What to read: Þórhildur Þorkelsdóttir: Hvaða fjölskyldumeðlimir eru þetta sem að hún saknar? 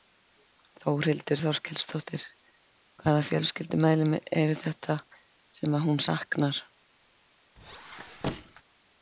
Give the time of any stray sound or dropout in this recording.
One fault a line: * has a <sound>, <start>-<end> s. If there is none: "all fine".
* has a squeak, 7.6-8.6 s